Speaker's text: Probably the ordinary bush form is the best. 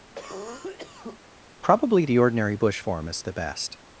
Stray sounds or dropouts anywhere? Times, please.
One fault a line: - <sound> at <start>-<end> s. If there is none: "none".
- cough at 0.1-1.2 s